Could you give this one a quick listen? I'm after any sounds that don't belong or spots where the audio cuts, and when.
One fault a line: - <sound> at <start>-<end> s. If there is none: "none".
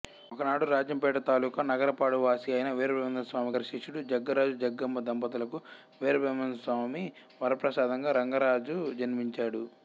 none